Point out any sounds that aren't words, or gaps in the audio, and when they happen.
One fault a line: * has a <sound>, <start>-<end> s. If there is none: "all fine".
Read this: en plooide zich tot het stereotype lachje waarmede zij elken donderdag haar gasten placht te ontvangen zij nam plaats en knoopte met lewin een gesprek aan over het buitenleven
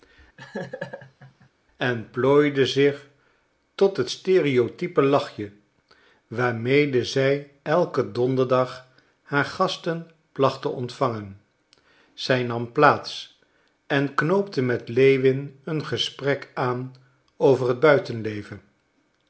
* has a laugh, 0.4-1.5 s